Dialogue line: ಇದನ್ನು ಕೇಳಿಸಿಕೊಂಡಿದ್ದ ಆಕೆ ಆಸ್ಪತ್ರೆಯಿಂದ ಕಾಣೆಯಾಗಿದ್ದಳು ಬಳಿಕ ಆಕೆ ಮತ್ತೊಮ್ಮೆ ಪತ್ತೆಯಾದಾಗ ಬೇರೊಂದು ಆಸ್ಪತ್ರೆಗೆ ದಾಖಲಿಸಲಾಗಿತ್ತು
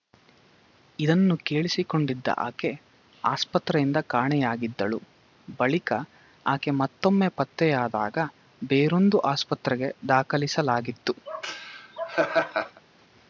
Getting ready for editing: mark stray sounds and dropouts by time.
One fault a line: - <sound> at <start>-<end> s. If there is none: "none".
- laugh at 11.3-12.8 s